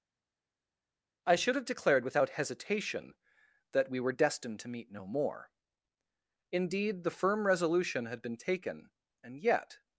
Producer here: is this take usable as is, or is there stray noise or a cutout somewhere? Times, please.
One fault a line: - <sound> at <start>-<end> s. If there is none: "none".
none